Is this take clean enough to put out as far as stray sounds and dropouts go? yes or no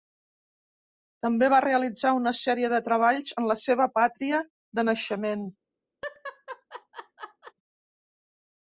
no